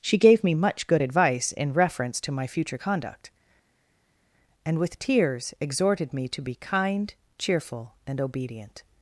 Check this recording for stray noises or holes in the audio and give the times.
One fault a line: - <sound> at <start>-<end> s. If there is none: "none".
none